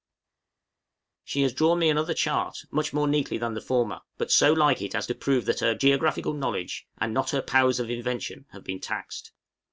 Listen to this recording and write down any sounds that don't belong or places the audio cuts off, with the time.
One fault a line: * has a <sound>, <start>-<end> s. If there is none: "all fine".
all fine